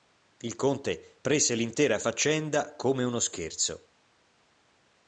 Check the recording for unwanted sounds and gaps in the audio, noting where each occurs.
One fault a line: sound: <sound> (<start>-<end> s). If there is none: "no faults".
no faults